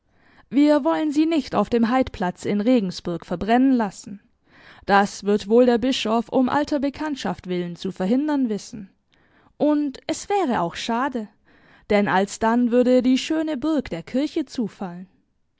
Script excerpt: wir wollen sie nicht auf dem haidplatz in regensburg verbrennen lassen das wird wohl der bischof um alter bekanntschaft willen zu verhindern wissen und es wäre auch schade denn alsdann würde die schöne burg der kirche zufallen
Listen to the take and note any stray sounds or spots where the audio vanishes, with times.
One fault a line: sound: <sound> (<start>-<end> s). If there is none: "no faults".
no faults